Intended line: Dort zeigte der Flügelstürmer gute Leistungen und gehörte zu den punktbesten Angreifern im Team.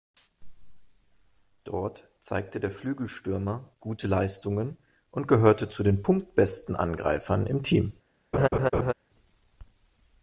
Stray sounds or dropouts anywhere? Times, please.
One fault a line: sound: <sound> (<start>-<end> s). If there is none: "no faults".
sound: laugh (8.3-8.9 s)